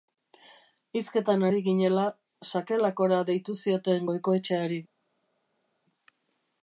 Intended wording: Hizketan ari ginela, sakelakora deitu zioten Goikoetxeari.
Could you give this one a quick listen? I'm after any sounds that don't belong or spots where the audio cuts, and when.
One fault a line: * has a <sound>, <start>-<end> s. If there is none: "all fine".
all fine